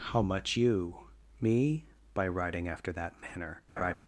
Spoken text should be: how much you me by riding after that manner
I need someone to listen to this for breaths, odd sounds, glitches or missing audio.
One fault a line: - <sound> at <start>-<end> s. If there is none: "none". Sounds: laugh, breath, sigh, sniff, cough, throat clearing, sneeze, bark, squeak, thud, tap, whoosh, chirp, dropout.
- laugh at 3.8-3.9 s